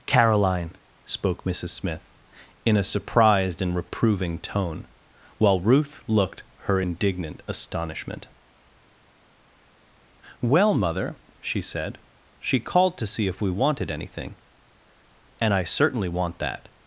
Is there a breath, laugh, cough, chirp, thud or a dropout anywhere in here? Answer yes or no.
no